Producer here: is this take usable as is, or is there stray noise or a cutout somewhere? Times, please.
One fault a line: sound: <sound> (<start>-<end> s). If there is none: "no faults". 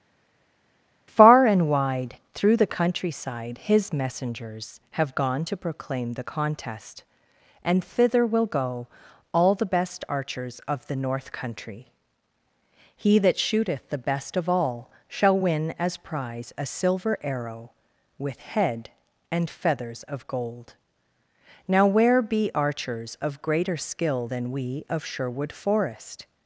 no faults